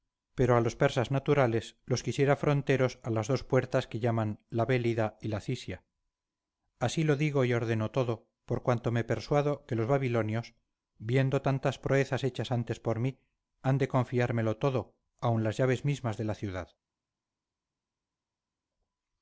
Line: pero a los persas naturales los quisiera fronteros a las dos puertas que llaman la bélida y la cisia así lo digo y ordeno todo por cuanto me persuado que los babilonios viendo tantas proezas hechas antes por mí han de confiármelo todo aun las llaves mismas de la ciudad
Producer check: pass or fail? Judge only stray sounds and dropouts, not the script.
pass